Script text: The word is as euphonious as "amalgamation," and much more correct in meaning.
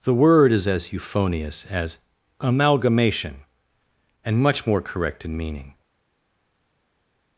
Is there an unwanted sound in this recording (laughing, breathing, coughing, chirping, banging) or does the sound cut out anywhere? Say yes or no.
no